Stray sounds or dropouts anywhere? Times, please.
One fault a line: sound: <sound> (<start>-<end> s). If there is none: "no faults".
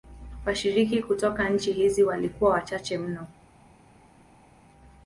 no faults